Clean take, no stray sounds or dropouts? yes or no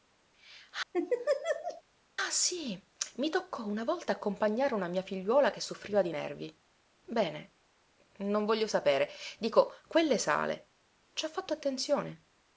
no